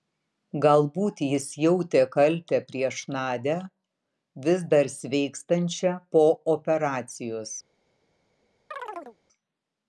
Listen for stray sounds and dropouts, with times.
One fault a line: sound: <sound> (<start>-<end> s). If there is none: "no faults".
sound: chirp (8.7-9.2 s)